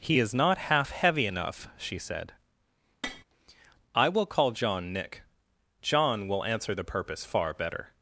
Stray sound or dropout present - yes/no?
yes